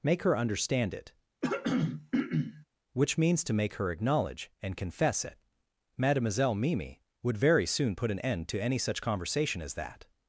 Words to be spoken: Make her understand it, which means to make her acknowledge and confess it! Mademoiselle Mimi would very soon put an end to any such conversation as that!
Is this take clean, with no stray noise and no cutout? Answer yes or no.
no